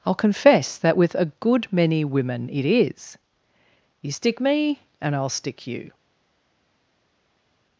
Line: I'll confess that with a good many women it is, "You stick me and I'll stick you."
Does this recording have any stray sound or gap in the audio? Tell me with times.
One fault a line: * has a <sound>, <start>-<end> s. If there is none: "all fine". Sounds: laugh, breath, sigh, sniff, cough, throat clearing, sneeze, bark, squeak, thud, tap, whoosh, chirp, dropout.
all fine